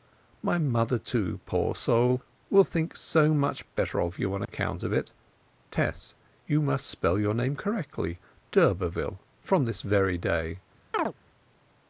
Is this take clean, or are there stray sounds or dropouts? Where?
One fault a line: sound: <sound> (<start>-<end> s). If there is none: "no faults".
sound: dropout (4.4-4.5 s)
sound: chirp (10.9-11.1 s)